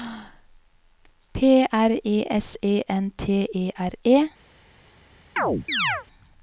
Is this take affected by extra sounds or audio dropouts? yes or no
yes